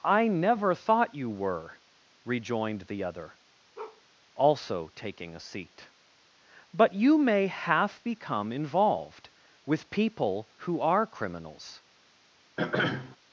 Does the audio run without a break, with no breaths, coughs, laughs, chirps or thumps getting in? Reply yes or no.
no